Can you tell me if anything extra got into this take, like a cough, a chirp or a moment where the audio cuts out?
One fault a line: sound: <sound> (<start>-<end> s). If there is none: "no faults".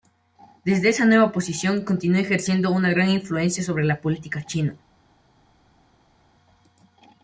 no faults